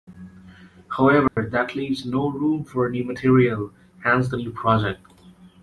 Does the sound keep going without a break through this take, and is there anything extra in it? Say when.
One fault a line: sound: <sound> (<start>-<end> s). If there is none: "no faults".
sound: dropout (1.3-1.4 s)